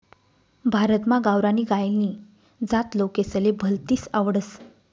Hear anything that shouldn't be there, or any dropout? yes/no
no